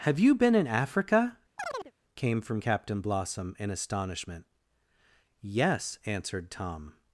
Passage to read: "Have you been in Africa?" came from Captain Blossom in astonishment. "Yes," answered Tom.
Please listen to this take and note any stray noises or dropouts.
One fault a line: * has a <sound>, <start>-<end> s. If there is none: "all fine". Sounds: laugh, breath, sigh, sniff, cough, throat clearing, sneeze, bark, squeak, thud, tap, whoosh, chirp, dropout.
* has a chirp, 1.6-1.9 s